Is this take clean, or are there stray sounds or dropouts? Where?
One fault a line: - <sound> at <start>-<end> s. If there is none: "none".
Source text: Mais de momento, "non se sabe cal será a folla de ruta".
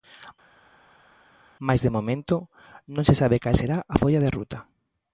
none